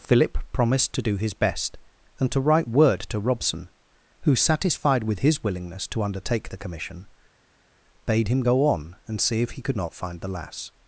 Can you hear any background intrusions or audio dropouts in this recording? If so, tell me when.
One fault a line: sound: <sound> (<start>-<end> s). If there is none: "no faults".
no faults